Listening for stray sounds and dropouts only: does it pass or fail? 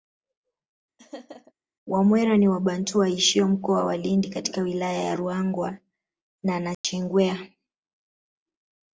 fail